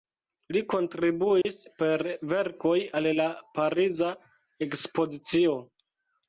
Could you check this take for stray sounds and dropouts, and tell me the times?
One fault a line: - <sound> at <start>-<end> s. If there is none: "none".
- dropout at 1.4-1.5 s